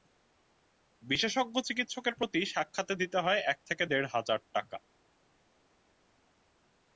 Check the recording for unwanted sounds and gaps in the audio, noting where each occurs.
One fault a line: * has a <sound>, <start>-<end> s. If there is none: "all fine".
all fine